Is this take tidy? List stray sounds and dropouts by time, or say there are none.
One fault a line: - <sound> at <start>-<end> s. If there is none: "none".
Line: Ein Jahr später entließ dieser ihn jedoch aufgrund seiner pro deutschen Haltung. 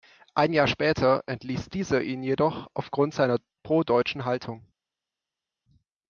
none